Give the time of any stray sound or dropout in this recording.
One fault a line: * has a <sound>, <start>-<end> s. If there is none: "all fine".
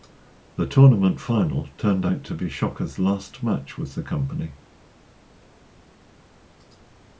all fine